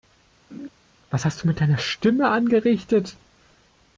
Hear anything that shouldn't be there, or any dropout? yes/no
yes